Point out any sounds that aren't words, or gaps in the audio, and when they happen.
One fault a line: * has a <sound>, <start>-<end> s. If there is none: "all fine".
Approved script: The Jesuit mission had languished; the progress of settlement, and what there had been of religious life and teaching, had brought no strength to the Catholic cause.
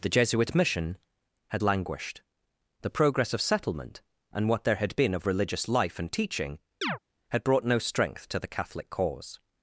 * has a chirp, 6.8-7.0 s